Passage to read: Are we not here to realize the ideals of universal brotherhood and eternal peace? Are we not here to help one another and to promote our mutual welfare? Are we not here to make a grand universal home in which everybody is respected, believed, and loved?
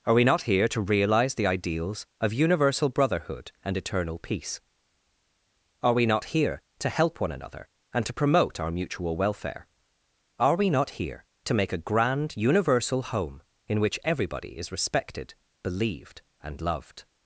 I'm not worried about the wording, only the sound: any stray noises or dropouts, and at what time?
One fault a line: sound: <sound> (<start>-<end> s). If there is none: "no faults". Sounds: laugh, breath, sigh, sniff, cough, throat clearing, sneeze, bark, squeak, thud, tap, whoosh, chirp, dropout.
no faults